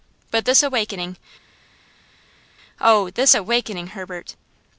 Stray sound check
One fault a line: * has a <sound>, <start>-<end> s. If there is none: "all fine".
all fine